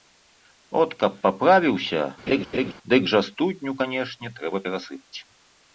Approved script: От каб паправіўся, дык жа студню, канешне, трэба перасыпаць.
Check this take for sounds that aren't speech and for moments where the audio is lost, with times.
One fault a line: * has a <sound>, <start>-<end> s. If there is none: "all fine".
* has a laugh, 2.3-2.7 s